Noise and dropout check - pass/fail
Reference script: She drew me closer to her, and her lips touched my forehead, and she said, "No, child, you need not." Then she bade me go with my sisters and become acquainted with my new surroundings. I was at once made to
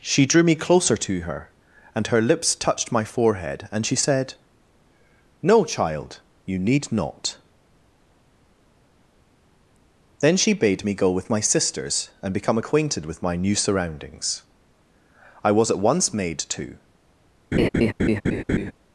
fail